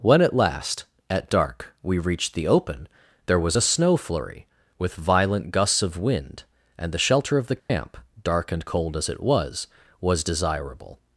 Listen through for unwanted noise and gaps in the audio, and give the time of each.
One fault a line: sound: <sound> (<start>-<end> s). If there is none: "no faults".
sound: dropout (7.6-7.7 s)